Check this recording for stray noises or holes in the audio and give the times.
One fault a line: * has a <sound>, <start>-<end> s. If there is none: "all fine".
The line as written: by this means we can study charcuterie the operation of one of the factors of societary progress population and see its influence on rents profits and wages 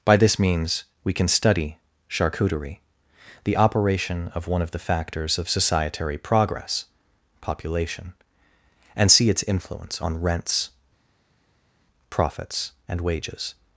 all fine